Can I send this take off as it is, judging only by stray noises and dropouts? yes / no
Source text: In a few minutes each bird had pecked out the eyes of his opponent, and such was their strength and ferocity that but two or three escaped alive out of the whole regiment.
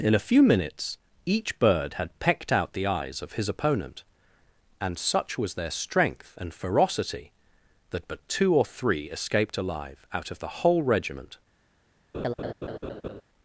no